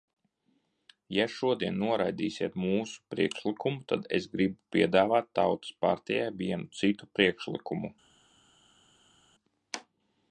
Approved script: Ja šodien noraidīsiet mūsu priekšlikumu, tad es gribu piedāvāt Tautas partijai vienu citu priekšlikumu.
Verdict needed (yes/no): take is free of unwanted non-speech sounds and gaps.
yes